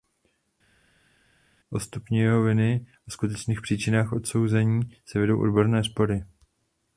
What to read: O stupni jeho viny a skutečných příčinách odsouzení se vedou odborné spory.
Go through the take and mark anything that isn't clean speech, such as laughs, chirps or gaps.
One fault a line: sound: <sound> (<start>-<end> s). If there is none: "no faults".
no faults